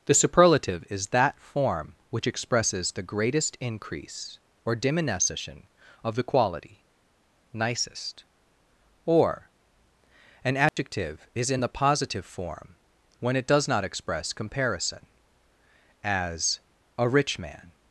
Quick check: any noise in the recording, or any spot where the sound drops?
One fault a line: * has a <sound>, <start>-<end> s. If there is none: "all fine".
* has a dropout, 10.7-10.8 s